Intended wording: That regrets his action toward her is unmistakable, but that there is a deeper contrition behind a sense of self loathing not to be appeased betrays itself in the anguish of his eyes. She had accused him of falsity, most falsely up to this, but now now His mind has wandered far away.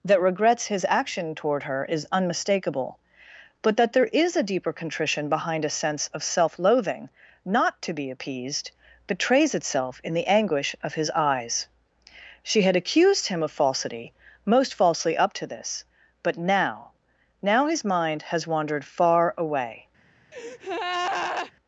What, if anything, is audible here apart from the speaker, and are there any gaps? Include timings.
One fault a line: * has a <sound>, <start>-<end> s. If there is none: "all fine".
* has a breath, 20.3-21.5 s